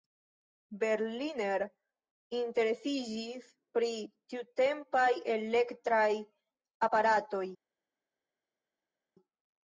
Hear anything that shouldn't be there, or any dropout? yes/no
no